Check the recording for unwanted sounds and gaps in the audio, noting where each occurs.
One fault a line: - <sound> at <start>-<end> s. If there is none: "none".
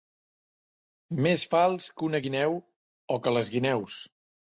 none